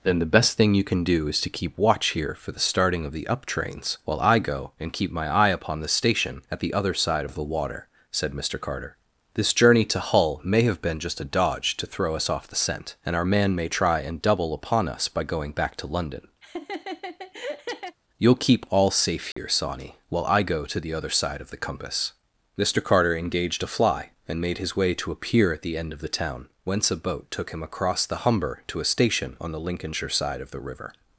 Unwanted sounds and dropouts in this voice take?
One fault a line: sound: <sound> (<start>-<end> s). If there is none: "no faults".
sound: laugh (16.4-18.0 s)
sound: dropout (19.3-19.4 s)